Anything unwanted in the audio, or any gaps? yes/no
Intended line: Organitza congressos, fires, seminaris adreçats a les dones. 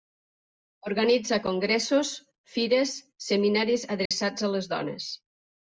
yes